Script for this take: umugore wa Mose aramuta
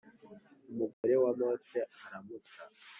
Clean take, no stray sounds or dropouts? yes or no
no